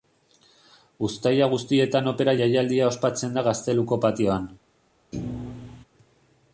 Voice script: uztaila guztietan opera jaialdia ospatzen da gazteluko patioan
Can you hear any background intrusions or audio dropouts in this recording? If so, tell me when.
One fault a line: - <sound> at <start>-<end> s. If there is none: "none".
- thud at 5.1-5.8 s